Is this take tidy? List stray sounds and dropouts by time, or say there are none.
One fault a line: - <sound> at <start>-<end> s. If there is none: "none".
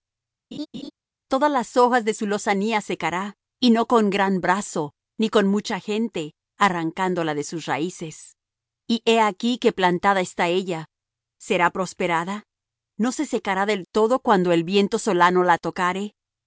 - laugh at 0.5-0.9 s